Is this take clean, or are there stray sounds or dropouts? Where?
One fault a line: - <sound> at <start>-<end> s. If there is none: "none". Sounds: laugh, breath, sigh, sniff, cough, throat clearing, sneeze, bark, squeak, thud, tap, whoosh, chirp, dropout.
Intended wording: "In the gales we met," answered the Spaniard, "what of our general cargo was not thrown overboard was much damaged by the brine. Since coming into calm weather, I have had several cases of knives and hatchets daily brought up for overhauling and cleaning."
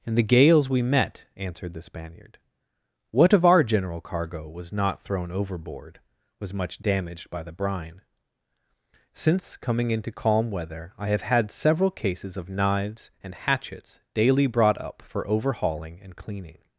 none